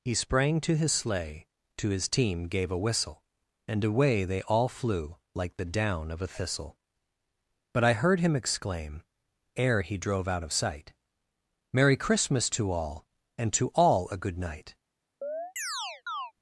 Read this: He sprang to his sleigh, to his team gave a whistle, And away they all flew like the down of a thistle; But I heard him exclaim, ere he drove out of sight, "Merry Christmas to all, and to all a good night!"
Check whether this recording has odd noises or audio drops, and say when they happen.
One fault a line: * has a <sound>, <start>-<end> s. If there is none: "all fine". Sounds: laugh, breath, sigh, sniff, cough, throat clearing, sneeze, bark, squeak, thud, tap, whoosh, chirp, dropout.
* has a chirp, 15.2-16.3 s